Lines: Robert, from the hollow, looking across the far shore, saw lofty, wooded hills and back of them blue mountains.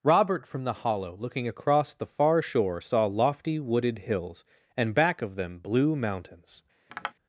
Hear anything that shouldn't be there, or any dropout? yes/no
yes